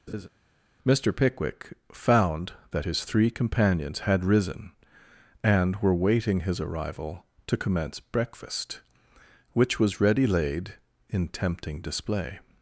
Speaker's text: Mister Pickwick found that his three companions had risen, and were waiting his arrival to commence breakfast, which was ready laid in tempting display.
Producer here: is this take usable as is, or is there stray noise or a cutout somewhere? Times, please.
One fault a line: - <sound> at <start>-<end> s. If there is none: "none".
- laugh at 0.1-0.3 s